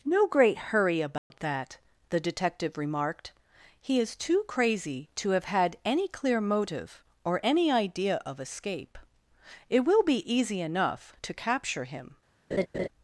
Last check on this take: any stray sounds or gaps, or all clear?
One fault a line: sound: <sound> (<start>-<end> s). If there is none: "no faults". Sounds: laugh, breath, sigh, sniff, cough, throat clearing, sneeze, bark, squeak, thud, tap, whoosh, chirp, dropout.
sound: dropout (1.2-1.3 s)
sound: laugh (12.5-12.9 s)